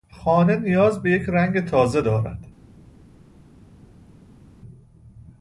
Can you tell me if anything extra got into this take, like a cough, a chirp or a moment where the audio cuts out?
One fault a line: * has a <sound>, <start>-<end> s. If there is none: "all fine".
all fine